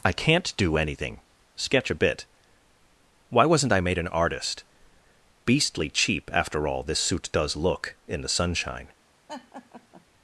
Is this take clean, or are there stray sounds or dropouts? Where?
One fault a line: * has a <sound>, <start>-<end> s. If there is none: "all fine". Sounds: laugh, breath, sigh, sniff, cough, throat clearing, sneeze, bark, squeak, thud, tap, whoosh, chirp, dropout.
* has a laugh, 9.3-10.1 s